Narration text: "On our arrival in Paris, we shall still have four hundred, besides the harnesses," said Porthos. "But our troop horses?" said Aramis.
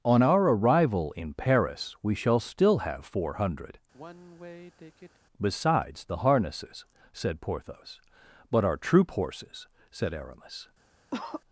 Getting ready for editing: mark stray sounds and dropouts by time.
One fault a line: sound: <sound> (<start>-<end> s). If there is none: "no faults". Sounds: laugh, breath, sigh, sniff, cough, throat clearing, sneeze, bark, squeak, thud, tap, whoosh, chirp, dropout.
sound: sigh (3.9-5.2 s)
sound: cough (11.1-11.4 s)